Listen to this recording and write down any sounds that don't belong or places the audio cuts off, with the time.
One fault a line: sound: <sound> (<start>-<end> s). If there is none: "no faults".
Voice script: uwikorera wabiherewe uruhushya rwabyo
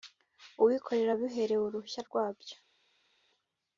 no faults